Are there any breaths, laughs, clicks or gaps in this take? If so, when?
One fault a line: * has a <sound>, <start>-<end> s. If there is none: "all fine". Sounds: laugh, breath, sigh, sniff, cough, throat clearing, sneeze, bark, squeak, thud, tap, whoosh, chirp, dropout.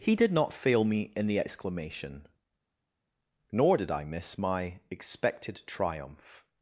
all fine